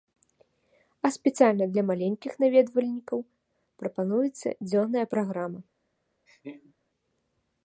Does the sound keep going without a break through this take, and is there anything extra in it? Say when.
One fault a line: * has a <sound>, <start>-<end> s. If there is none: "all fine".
* has a laugh, 6.3-6.7 s